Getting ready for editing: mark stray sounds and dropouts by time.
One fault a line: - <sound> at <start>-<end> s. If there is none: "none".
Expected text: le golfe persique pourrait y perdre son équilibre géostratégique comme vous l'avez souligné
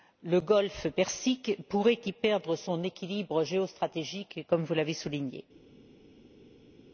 none